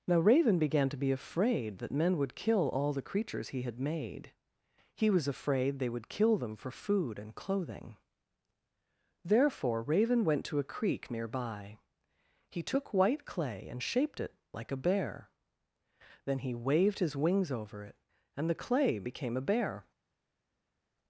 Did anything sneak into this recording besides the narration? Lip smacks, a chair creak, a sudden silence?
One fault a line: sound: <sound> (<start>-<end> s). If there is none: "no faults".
no faults